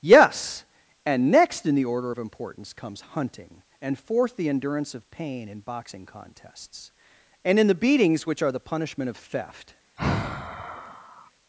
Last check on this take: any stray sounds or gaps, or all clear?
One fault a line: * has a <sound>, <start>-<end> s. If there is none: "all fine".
* has a sigh, 10.0-11.3 s